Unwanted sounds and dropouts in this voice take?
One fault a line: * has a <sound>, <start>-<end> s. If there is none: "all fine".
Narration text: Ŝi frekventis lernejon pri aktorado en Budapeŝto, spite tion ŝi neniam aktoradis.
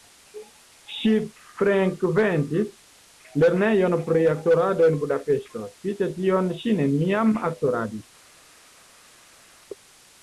all fine